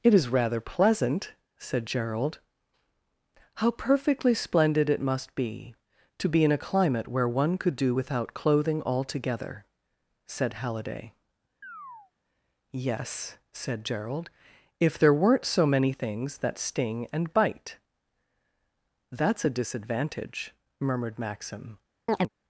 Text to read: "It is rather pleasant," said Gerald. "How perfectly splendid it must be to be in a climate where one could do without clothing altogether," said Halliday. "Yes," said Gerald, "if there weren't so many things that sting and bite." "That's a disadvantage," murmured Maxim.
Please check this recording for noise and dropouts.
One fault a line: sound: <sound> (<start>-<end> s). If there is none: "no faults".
sound: chirp (11.6-12.1 s)
sound: chirp (22.1-22.3 s)